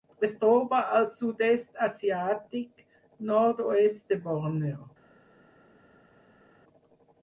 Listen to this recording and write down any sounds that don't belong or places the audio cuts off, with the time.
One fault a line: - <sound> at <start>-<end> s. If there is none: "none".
none